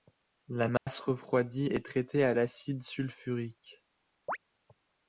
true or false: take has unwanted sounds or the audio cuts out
true